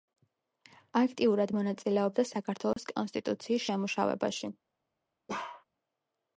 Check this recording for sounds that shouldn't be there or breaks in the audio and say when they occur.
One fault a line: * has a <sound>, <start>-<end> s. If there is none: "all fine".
* has a dropout, 2.7-2.8 s
* has a bark, 5.3-5.6 s